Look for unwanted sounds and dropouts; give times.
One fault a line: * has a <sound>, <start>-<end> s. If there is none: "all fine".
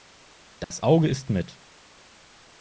* has a dropout, 0.6-0.7 s